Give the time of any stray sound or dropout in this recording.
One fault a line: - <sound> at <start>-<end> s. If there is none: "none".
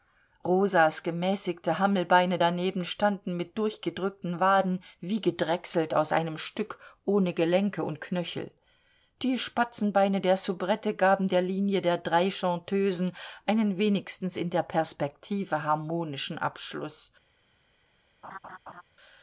- laugh at 18.2-18.8 s